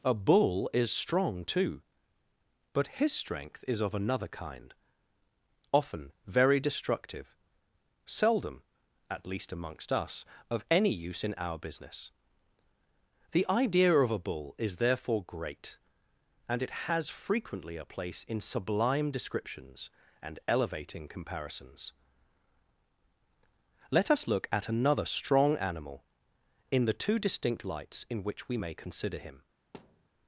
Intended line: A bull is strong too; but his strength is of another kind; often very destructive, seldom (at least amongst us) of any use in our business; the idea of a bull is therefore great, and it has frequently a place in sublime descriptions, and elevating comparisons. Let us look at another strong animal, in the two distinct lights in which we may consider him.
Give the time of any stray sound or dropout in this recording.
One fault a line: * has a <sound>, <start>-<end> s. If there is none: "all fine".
* has a thud, 29.7-30.1 s